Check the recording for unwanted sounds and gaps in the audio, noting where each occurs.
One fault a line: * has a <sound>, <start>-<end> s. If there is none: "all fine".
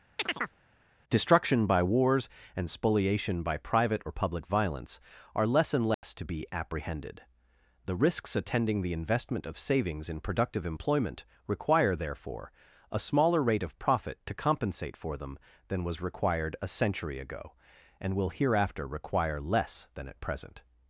* has a chirp, 0.2-0.6 s
* has a dropout, 5.9-6.0 s